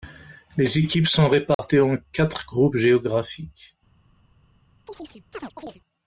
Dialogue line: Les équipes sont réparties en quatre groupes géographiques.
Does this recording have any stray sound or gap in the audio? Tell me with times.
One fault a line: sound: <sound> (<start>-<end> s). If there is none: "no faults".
sound: dropout (1.5-1.6 s)
sound: chirp (4.9-5.8 s)